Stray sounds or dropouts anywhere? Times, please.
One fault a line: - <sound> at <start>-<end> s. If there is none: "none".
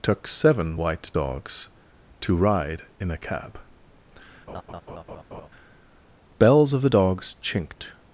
- laugh at 4.5-5.5 s